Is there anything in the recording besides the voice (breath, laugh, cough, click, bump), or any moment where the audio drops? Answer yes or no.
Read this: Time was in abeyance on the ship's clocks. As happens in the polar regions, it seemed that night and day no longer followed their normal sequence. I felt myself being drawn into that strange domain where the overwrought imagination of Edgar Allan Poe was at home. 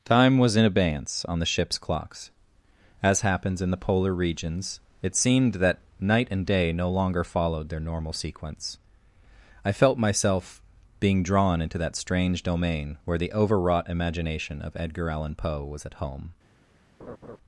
yes